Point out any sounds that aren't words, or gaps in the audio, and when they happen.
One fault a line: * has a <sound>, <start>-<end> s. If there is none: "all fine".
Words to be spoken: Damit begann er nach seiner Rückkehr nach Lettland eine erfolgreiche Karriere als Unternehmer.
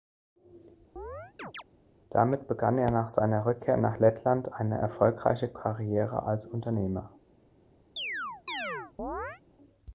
* has a chirp, 1.0-1.6 s
* has a chirp, 8.0-9.4 s